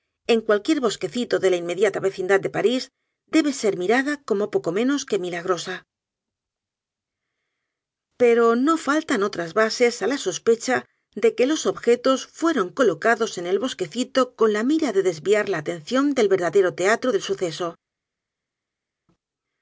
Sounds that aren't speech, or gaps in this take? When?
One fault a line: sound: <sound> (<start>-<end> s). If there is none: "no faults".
no faults